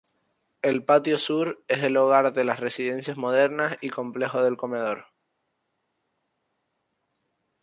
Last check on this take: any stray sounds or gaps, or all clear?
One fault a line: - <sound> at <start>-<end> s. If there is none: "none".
none